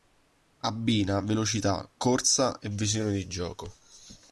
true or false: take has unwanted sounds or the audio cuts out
false